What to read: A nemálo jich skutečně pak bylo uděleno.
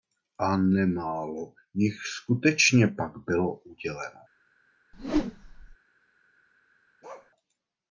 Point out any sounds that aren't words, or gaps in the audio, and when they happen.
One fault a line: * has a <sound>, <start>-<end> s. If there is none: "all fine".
* has a whoosh, 4.9-5.8 s
* has a bark, 7.0-7.3 s